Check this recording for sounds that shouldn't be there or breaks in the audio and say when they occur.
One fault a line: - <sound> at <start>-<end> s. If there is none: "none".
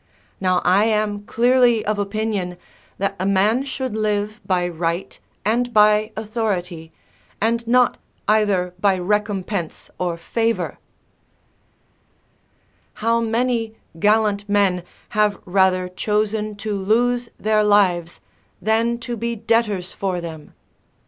none